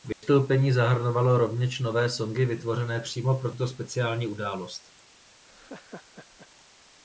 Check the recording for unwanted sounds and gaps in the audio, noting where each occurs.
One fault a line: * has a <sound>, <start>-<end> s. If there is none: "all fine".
* has a dropout, 0.1-0.2 s
* has a laugh, 5.4-6.5 s